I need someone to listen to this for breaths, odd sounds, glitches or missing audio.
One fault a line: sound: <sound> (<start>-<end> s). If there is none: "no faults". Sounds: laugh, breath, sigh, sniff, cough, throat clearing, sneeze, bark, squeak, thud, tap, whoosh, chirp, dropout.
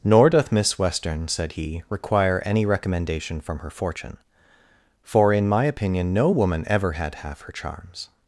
no faults